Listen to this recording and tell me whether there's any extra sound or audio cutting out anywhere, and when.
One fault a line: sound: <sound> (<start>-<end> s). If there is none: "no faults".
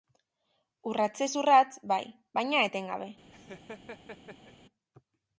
sound: laugh (3.3-4.5 s)